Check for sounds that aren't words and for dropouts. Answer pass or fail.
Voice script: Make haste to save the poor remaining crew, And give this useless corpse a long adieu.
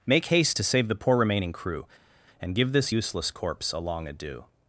pass